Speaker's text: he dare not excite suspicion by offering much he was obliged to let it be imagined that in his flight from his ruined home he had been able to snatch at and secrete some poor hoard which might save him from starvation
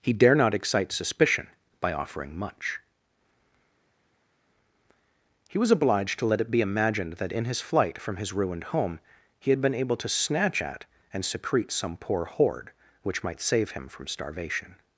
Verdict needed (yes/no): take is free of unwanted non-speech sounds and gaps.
yes